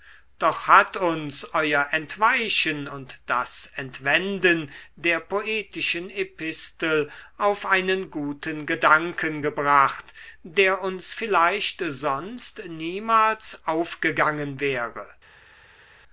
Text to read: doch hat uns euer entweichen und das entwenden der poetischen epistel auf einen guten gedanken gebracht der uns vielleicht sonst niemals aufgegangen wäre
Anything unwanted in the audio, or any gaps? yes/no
no